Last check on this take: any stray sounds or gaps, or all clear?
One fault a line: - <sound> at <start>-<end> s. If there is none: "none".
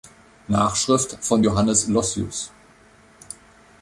none